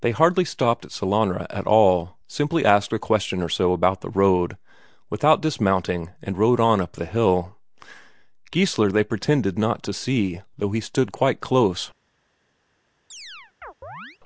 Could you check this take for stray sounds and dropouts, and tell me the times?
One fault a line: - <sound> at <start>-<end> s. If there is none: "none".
- chirp at 13.1-14.2 s